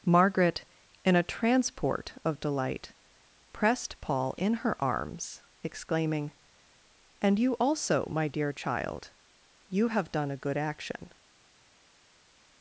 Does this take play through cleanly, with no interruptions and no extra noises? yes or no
yes